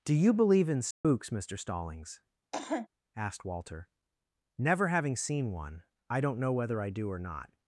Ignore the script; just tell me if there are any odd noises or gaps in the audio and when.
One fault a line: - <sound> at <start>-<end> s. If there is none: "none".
- dropout at 0.9-1.0 s
- cough at 2.5-2.9 s